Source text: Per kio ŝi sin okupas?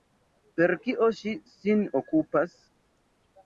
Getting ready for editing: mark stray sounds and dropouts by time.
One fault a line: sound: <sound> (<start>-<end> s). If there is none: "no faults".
no faults